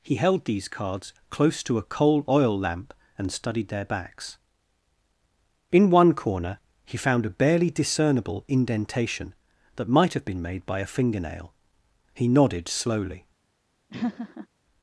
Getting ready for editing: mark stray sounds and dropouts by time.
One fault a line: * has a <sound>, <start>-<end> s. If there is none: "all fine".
* has a laugh, 13.9-14.5 s